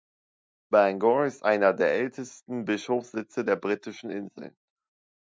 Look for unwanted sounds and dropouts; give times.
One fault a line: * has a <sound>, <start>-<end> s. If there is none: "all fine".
all fine